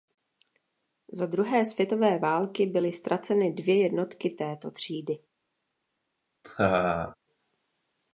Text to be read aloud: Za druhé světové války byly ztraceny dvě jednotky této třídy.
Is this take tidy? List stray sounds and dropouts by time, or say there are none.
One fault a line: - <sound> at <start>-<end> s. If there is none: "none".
- laugh at 6.4-7.2 s